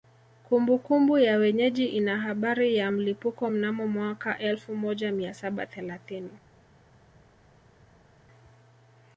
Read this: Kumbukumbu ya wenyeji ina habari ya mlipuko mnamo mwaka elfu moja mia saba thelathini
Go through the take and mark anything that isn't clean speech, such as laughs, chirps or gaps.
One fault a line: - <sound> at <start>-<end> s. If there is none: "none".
none